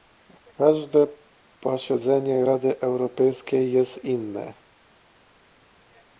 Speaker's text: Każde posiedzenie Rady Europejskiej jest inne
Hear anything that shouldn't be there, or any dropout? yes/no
no